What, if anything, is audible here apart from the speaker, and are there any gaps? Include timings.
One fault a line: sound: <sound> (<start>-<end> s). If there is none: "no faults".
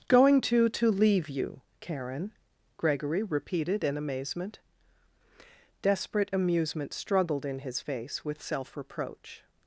no faults